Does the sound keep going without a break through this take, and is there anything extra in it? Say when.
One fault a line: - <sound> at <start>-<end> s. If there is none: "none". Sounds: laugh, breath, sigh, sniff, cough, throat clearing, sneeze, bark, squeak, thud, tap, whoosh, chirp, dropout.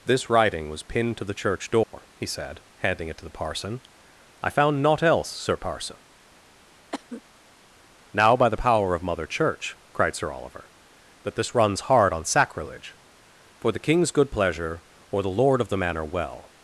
- dropout at 1.8-1.9 s
- cough at 6.9-7.2 s